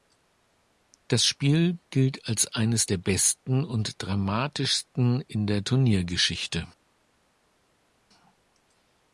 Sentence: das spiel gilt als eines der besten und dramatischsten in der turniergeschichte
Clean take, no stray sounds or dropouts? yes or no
yes